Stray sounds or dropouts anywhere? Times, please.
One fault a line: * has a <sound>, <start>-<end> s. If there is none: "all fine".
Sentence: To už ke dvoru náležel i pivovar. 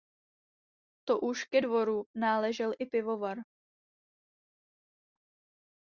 all fine